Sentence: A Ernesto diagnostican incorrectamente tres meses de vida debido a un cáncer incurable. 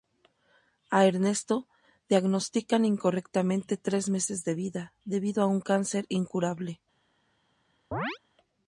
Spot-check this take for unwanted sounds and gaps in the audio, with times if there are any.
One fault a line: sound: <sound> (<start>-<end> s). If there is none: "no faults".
sound: chirp (7.9-8.2 s)